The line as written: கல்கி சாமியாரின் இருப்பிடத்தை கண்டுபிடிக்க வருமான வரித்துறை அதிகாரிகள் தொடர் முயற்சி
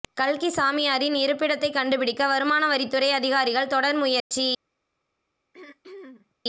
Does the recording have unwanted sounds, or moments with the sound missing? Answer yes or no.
yes